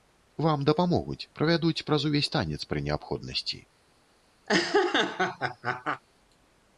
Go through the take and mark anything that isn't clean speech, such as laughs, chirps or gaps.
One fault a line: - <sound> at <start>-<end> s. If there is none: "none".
- laugh at 4.5-6.0 s